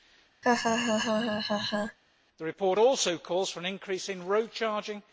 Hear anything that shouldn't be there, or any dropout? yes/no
yes